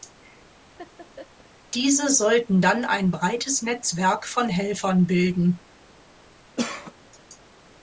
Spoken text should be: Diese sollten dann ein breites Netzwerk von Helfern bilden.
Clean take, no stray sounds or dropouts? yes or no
no